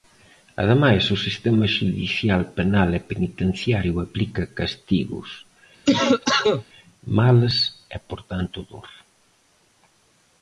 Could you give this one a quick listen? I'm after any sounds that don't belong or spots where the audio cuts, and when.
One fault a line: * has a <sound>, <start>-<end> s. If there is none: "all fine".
* has a cough, 5.8-6.6 s